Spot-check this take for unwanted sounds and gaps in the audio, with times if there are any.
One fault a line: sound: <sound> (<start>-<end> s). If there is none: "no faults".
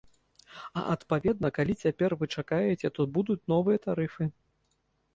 no faults